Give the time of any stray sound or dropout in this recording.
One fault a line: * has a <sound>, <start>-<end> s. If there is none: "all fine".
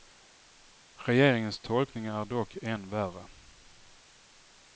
all fine